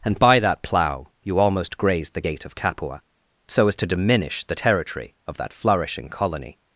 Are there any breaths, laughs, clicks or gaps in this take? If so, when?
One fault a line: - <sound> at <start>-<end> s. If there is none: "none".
none